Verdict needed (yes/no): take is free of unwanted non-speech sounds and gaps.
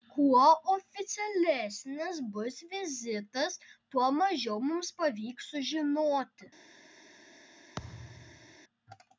no